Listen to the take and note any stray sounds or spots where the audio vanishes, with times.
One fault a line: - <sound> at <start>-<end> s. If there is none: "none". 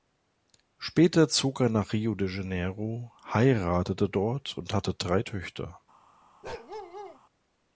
- bark at 6.4-7.2 s